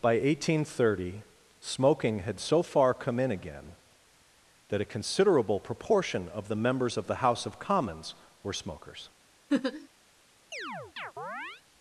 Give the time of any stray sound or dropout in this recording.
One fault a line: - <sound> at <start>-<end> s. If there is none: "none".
- laugh at 9.5-9.9 s
- chirp at 10.5-11.6 s